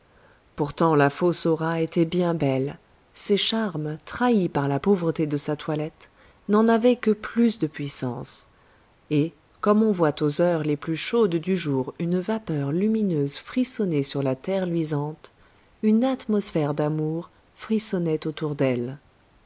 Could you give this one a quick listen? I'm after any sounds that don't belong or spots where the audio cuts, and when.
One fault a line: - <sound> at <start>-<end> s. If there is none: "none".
none